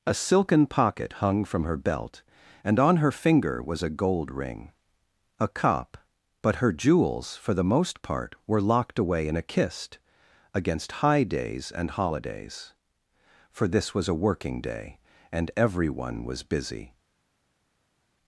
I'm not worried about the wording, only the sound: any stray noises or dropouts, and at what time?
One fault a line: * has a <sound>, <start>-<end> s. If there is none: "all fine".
all fine